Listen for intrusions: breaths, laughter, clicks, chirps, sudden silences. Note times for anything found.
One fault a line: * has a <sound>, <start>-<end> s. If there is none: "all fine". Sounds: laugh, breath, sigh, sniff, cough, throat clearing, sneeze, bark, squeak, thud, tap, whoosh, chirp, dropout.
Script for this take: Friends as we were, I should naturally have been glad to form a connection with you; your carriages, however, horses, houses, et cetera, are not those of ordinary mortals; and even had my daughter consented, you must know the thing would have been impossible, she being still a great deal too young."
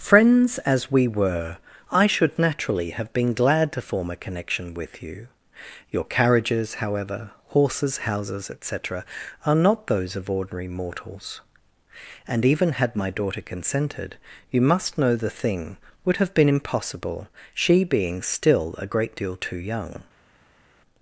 all fine